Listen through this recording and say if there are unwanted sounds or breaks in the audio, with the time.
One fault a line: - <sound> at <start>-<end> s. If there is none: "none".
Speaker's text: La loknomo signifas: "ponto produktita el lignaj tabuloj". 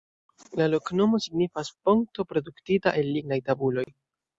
- dropout at 3.8-3.9 s